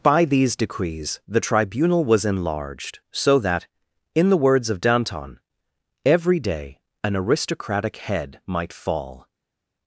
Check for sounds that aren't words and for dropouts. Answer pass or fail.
pass